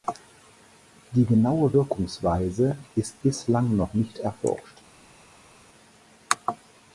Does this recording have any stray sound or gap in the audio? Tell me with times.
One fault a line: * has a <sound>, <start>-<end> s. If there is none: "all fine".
all fine